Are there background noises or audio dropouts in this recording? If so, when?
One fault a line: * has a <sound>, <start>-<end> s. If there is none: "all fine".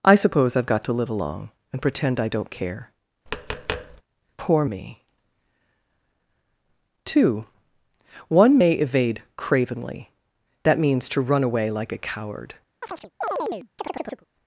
* has a tap, 3.3-4.0 s
* has a chirp, 12.8-14.3 s